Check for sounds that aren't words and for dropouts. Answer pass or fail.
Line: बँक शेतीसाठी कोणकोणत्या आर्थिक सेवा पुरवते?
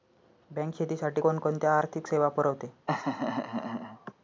fail